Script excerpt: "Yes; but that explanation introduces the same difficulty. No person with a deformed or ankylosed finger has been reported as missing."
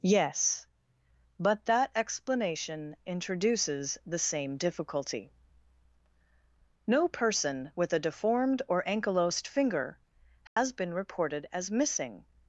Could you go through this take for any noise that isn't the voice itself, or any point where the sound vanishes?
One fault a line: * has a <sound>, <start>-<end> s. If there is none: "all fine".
* has a dropout, 10.5-10.6 s